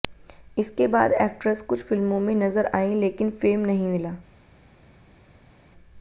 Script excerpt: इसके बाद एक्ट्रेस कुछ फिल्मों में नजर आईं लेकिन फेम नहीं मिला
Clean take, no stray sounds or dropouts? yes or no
yes